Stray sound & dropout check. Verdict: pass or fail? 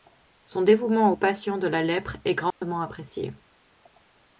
fail